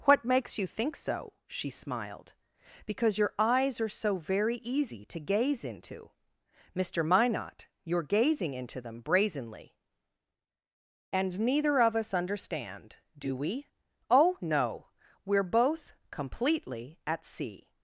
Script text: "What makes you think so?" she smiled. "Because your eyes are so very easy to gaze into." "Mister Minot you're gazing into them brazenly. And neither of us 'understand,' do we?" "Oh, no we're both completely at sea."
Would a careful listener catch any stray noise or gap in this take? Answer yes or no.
no